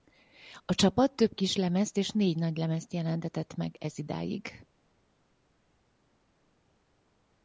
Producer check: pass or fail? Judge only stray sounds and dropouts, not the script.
pass